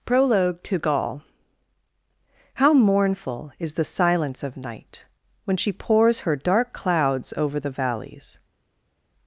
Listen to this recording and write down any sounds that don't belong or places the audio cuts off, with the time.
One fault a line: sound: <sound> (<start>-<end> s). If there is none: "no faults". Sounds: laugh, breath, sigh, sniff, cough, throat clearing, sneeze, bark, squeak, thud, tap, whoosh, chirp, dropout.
no faults